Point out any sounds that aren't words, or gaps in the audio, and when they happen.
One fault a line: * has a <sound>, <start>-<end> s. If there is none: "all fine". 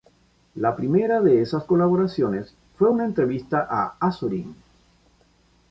all fine